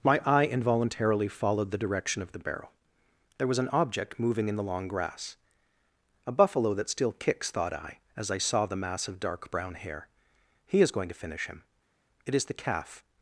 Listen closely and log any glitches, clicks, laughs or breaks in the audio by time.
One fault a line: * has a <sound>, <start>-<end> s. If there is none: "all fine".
all fine